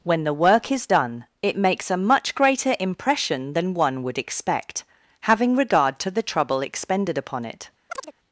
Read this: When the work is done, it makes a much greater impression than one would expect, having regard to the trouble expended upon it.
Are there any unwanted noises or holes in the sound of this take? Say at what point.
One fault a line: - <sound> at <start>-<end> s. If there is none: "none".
- chirp at 7.9-8.1 s